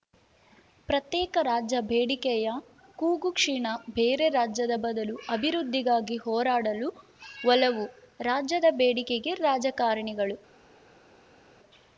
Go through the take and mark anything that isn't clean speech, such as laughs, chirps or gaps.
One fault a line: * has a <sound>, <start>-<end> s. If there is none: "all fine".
all fine